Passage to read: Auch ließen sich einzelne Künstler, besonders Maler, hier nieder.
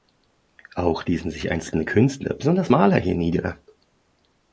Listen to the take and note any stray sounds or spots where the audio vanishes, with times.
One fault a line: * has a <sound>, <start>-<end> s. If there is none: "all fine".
all fine